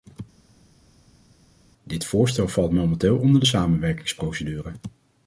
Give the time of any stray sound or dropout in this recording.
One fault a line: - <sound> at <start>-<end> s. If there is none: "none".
none